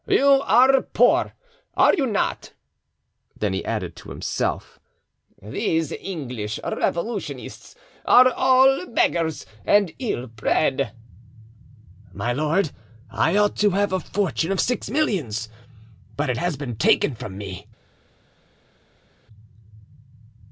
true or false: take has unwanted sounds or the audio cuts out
false